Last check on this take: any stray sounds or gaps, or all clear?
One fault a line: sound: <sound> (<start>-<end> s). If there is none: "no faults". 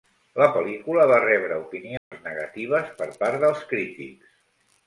sound: dropout (2.0-2.1 s)